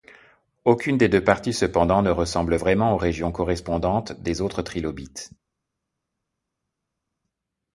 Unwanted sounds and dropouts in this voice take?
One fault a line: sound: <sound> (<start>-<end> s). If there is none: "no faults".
no faults